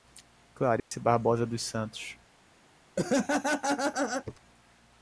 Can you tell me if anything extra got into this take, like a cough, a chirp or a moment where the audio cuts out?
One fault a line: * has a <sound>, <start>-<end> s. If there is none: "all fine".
* has a dropout, 0.8-0.9 s
* has a laugh, 3.0-4.4 s